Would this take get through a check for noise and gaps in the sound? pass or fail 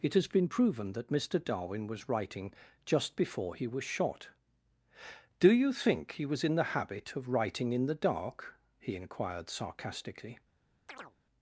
fail